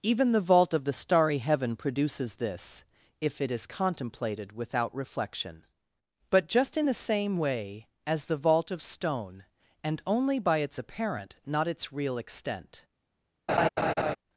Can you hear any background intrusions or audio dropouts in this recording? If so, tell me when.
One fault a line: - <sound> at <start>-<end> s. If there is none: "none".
- laugh at 13.5-14.2 s